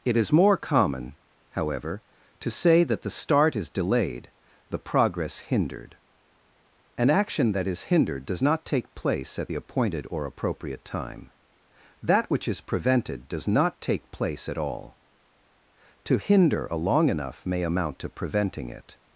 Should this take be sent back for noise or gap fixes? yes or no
no